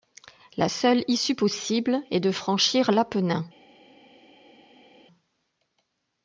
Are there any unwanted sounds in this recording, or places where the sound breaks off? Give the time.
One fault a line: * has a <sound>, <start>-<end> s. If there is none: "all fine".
all fine